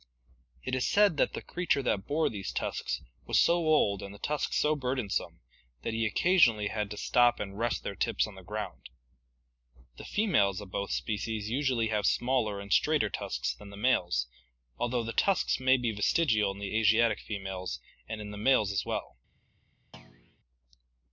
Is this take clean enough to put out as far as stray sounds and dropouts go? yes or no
no